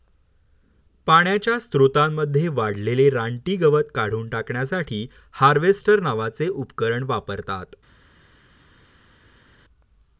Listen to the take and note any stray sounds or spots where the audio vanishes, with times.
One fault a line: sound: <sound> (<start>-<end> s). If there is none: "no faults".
no faults